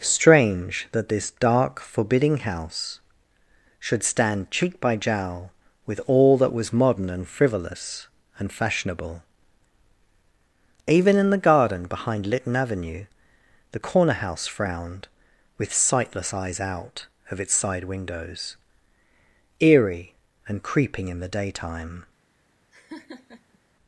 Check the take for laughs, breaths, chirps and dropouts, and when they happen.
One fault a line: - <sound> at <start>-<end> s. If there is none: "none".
- laugh at 22.7-23.6 s